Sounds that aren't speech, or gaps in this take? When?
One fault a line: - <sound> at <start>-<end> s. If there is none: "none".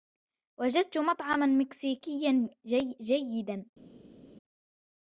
none